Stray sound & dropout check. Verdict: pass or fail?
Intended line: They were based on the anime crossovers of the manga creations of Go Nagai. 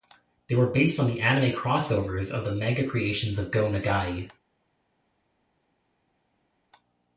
pass